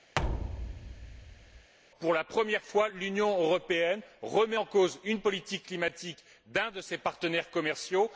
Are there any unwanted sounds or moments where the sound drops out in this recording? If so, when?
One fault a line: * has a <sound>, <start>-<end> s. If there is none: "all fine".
* has a thud, 0.1-1.7 s